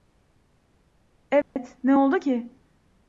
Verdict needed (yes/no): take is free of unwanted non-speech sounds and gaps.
no